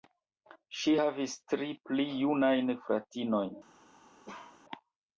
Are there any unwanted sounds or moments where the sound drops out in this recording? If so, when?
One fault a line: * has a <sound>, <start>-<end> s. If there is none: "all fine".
* has a bark, 4.3-4.6 s